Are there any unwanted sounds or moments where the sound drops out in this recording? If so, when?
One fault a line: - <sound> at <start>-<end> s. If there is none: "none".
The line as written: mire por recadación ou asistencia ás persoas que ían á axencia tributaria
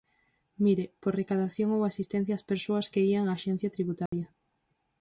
- dropout at 4.1-4.1 s